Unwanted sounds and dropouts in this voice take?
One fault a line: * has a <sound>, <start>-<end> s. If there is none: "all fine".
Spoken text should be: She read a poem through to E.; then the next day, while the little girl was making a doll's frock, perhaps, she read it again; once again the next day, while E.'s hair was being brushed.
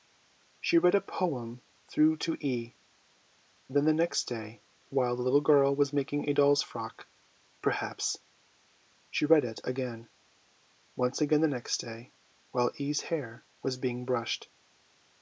all fine